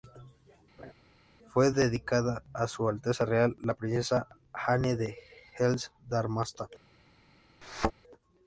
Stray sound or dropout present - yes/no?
yes